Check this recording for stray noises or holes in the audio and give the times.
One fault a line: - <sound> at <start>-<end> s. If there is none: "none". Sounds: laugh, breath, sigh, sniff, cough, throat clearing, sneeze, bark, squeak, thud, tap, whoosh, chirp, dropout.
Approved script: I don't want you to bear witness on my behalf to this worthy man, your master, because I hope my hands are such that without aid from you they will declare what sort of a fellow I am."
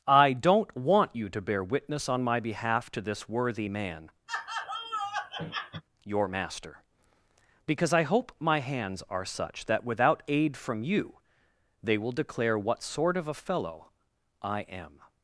- laugh at 4.3-5.8 s